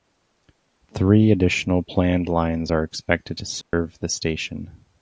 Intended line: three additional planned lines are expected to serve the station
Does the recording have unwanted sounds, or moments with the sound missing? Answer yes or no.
yes